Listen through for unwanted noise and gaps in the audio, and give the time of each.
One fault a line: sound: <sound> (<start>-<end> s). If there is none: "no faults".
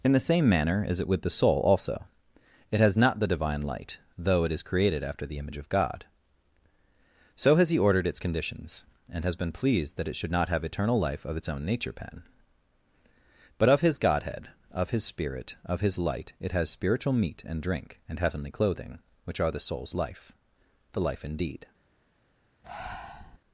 sound: breath (22.6-23.4 s)